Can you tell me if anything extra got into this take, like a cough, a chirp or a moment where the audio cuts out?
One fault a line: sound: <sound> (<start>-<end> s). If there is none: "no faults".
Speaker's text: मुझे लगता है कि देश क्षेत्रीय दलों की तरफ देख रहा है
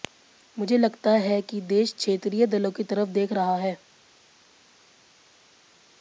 no faults